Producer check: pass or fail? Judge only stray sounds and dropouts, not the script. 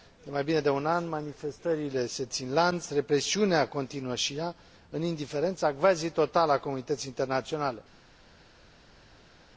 pass